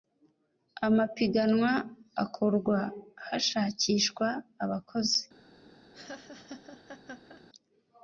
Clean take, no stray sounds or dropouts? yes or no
no